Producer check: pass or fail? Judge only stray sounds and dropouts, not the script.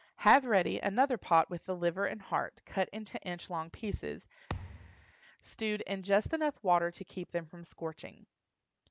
fail